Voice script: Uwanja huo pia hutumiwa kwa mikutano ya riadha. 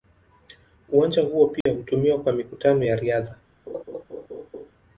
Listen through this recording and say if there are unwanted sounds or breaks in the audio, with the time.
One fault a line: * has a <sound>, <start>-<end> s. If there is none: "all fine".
* has a dropout, 1.6-1.7 s
* has a laugh, 3.7-4.7 s